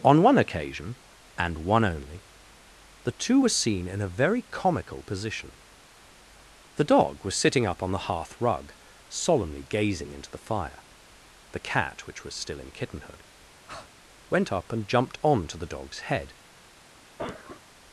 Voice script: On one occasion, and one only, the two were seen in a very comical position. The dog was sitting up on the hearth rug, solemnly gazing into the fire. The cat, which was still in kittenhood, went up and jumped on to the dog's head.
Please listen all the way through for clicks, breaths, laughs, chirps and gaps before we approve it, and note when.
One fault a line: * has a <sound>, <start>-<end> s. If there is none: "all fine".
* has a breath, 13.7-13.9 s
* has a cough, 17.2-17.6 s